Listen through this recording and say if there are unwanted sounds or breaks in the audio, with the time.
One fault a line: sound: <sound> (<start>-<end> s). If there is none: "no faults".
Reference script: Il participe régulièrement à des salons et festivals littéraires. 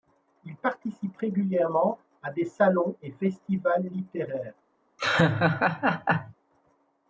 sound: laugh (5.0-6.3 s)